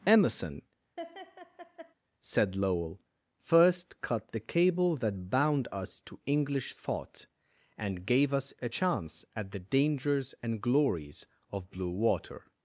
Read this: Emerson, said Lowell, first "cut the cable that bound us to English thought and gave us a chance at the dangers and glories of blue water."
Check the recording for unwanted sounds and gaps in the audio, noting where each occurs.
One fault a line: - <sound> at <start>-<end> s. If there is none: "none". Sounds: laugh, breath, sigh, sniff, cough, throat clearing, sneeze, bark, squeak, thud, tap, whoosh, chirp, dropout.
- laugh at 1.0-1.9 s